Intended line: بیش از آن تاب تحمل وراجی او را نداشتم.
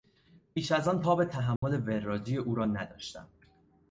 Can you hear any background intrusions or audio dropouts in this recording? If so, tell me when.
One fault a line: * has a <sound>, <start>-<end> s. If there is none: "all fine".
* has a dropout, 1.6-1.6 s